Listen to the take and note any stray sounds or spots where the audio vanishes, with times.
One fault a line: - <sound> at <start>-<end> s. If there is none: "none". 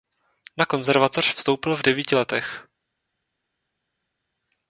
none